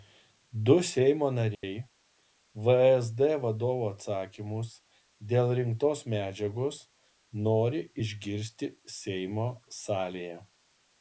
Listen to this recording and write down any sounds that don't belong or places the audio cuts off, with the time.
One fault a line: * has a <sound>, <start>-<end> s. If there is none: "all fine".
* has a dropout, 1.5-1.6 s